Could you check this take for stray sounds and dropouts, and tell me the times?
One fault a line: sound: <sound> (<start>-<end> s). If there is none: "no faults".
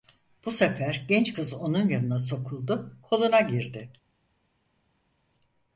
no faults